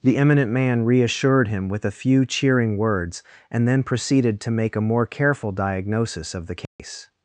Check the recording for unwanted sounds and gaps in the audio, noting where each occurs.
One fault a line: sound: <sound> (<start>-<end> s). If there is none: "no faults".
sound: dropout (6.7-6.8 s)